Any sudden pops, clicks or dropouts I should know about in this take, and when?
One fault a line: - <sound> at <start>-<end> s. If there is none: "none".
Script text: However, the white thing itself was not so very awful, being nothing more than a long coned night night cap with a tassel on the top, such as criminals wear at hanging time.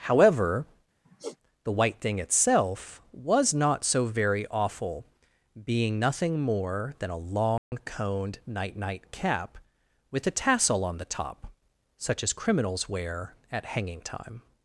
- sigh at 1.0-1.4 s
- dropout at 7.6-7.7 s